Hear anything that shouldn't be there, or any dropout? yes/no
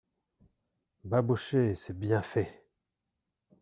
no